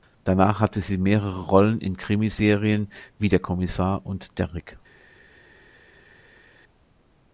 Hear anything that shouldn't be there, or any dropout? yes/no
no